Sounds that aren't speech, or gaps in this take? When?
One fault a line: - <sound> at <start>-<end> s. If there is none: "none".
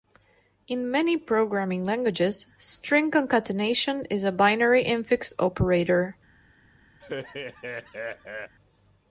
- laugh at 7.0-8.6 s